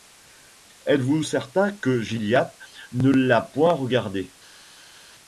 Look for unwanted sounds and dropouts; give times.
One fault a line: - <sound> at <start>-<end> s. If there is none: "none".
none